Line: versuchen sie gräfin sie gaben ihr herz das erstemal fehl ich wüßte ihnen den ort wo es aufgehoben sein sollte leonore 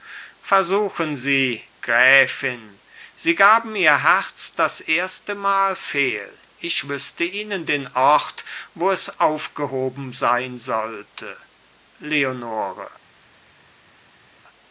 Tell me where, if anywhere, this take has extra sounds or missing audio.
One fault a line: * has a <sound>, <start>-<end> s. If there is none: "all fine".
all fine